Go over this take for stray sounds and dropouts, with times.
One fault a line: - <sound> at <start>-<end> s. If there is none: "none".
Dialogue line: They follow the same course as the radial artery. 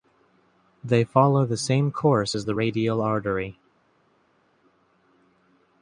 none